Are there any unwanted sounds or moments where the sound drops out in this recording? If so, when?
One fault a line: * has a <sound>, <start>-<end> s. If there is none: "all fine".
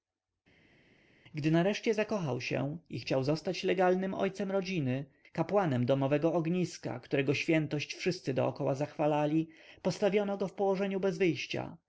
all fine